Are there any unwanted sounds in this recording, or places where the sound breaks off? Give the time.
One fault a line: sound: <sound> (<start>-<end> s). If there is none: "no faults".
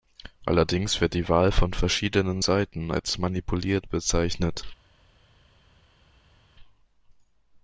no faults